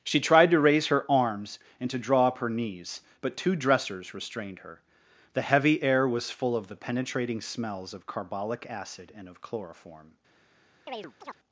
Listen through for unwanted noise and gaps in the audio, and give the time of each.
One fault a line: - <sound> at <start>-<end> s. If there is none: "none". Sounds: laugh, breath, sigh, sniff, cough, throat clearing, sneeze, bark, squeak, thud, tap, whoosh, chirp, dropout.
- chirp at 10.9-11.4 s